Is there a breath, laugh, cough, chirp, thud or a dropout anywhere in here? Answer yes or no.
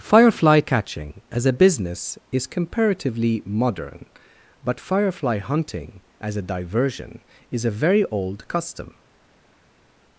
no